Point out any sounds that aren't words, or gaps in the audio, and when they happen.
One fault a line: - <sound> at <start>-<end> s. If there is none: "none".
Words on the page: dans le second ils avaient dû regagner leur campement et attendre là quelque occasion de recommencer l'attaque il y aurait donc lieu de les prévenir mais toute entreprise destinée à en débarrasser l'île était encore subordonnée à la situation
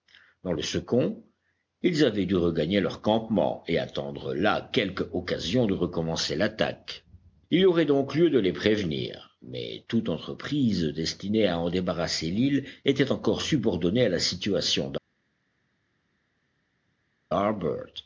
none